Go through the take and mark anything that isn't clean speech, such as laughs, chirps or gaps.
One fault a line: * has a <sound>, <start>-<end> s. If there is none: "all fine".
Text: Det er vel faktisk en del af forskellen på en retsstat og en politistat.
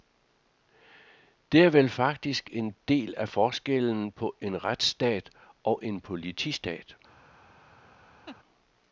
* has a laugh, 8.3-8.4 s